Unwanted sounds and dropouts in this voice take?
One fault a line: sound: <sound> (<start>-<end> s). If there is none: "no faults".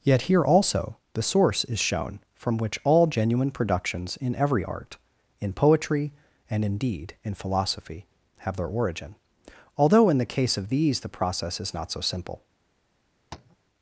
sound: tap (13.3-13.6 s)